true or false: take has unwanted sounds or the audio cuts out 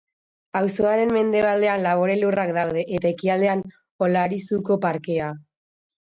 false